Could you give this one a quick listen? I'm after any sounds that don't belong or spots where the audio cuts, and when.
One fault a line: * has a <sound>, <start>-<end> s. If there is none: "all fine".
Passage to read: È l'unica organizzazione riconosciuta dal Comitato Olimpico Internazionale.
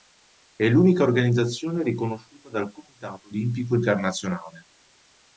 all fine